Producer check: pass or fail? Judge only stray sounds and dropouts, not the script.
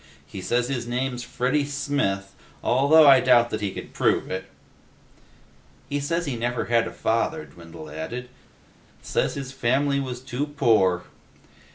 pass